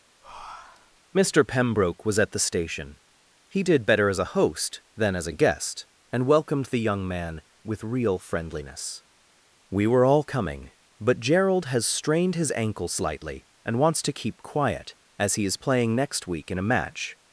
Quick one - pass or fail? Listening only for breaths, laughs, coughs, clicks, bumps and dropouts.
fail